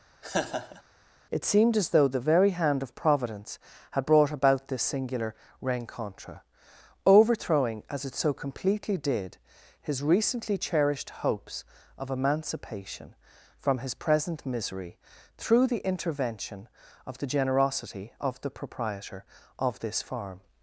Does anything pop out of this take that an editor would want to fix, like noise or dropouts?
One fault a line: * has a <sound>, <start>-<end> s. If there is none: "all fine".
* has a laugh, 0.2-0.8 s